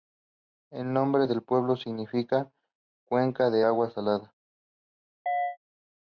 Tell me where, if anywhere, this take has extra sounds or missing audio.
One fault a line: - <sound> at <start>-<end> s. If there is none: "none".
- chirp at 5.3-5.6 s